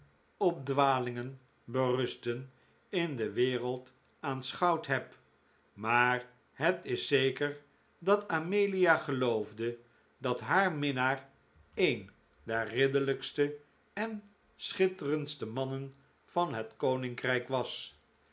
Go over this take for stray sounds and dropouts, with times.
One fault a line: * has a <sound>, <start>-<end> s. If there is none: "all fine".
all fine